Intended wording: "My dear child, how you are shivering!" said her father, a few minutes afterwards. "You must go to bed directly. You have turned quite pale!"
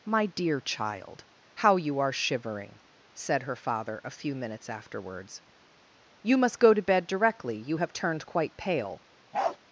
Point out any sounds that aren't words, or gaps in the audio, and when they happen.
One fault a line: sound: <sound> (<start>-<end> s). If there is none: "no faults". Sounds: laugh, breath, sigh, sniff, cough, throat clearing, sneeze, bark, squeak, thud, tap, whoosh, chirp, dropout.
sound: bark (9.3-9.6 s)